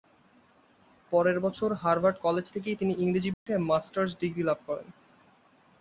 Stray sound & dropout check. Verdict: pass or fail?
fail